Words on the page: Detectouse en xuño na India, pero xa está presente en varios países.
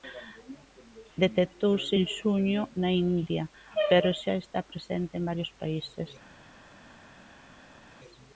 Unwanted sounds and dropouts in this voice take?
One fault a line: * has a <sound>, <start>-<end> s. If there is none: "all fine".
all fine